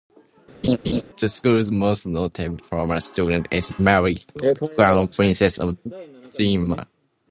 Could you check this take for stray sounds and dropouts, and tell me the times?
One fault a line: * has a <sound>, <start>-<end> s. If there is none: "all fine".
* has a laugh, 0.6-1.0 s